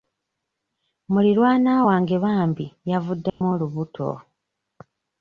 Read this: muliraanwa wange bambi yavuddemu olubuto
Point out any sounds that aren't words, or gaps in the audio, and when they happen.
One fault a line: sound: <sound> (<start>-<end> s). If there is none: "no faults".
sound: dropout (3.3-3.4 s)